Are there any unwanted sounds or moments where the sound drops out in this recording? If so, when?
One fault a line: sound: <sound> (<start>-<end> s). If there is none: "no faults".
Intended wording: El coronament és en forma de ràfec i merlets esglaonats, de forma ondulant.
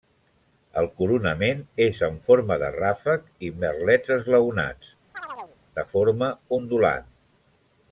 sound: chirp (5.1-5.6 s)